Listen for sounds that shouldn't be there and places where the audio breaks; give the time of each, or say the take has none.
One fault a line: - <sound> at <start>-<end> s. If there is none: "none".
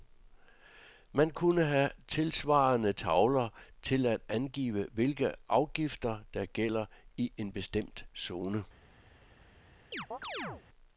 - chirp at 9.9-10.6 s